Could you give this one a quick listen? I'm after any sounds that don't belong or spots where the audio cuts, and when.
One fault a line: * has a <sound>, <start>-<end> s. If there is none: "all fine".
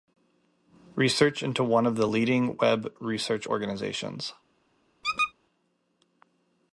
* has a squeak, 5.0-5.3 s